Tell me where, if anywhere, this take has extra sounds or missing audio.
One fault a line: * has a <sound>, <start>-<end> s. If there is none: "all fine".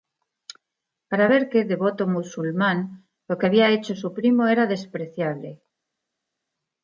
all fine